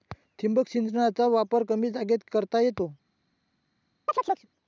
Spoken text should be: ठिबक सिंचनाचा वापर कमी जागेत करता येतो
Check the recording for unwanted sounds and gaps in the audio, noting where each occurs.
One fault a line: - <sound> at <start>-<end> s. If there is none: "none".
- chirp at 4.1-4.5 s